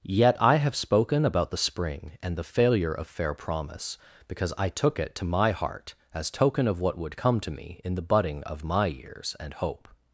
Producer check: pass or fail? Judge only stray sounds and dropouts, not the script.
pass